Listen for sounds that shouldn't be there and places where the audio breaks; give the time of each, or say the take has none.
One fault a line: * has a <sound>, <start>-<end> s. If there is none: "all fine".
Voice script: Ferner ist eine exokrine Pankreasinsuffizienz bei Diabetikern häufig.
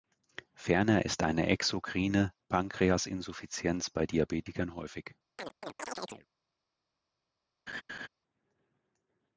* has a chirp, 5.4-6.3 s
* has a laugh, 7.7-8.1 s